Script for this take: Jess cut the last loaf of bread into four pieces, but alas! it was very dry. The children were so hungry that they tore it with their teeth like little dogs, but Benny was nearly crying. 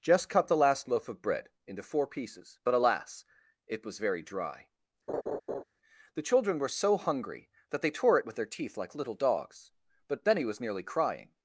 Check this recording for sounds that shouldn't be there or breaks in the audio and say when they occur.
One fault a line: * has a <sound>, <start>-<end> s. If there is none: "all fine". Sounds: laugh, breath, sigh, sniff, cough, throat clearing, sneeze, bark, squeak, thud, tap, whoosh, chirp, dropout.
* has a laugh, 5.1-5.6 s